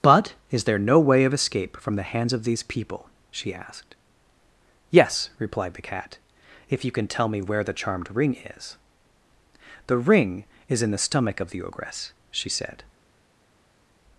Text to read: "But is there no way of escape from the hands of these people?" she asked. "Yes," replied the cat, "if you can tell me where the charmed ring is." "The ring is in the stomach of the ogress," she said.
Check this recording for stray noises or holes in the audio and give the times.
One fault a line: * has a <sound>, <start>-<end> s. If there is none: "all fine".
all fine